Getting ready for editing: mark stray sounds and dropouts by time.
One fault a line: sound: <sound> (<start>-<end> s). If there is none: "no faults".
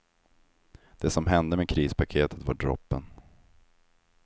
no faults